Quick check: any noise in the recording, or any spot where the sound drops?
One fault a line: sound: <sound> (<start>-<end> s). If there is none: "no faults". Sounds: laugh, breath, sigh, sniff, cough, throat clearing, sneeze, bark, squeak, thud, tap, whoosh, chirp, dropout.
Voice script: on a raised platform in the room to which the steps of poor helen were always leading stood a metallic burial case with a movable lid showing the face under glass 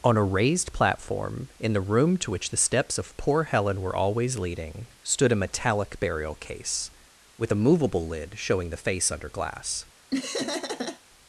sound: laugh (10.1-11.0 s)